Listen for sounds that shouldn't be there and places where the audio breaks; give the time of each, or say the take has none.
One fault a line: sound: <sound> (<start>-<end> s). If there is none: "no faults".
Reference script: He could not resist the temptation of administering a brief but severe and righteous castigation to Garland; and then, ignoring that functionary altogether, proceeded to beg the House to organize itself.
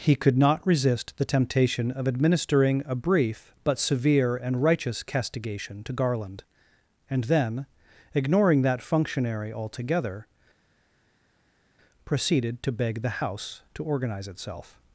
no faults